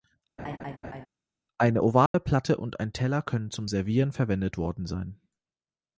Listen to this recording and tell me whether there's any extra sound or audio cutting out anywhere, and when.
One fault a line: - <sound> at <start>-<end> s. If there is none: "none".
- laugh at 0.4-1.1 s
- dropout at 2.1-2.1 s